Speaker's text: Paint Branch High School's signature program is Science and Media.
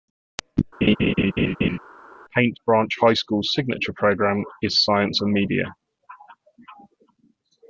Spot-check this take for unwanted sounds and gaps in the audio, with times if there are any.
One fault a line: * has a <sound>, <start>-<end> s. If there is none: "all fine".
* has a laugh, 0.8-1.8 s